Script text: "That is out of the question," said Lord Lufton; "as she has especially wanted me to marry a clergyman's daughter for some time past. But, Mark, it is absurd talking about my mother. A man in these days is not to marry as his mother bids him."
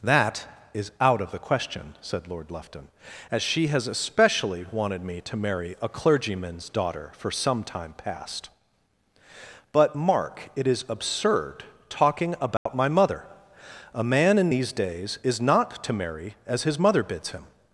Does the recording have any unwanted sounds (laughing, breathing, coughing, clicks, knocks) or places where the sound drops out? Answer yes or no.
yes